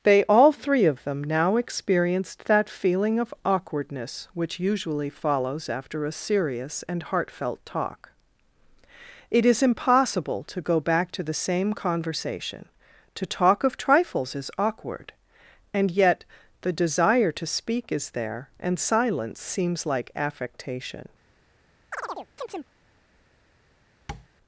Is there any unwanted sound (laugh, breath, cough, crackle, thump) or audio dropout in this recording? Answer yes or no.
yes